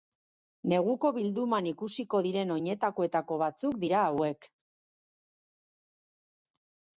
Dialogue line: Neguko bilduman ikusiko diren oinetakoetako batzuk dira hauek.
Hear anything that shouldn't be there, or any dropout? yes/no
no